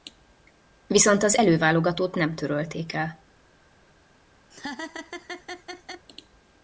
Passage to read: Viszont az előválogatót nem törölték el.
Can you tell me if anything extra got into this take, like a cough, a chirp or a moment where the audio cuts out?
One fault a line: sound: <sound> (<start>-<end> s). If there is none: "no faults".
sound: laugh (4.5-6.1 s)